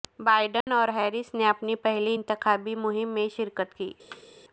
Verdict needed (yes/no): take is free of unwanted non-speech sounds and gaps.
no